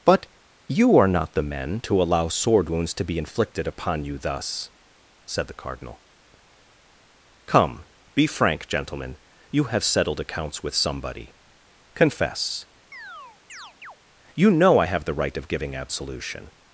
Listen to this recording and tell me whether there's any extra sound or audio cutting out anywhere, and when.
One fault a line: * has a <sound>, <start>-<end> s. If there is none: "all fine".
* has a chirp, 12.9-14.0 s